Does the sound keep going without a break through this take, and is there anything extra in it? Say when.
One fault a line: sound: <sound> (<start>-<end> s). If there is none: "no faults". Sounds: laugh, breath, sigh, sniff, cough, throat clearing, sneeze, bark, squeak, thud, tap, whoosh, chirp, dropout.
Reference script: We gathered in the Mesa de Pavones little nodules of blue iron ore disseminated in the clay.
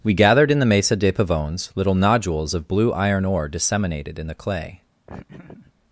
sound: laugh (5.1-5.7 s)